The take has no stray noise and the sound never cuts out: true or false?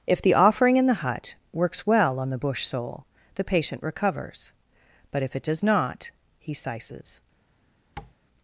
false